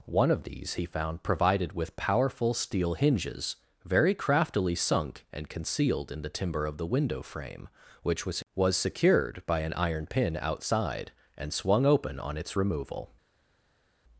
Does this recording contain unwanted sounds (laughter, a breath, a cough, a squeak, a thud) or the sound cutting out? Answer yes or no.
no